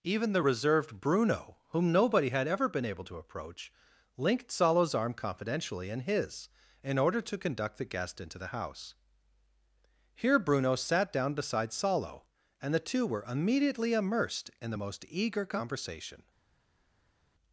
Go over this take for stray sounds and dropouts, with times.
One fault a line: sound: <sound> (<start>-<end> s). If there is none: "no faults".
no faults